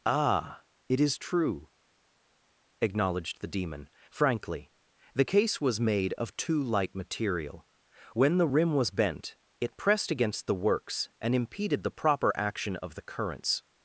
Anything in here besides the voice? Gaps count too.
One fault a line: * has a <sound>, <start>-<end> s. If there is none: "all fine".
all fine